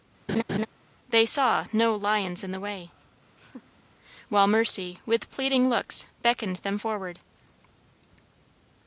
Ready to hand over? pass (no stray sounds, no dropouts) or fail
fail